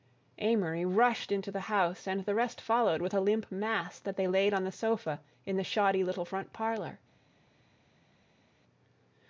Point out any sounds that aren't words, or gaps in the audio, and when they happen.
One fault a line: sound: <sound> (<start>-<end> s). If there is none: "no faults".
no faults